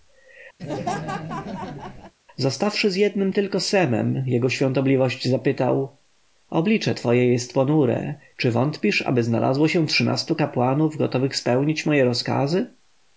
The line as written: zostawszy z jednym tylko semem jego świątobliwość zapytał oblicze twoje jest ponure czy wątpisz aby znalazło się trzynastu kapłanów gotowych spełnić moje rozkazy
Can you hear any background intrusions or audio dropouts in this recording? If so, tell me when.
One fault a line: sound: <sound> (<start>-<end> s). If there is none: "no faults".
sound: laugh (0.6-2.1 s)